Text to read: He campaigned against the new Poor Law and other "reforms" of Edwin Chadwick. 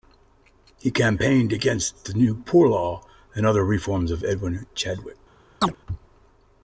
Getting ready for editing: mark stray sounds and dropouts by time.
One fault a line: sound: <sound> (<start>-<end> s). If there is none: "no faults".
sound: chirp (5.6-5.8 s)